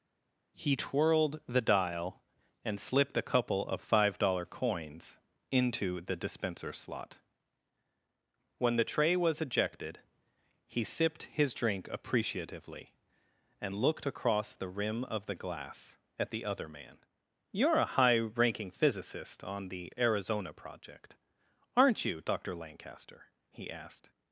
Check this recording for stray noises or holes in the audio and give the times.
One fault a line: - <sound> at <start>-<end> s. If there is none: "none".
none